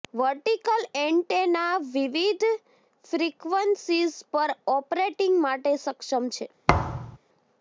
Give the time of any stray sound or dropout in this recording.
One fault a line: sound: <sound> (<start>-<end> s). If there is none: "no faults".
sound: thud (6.7-7.2 s)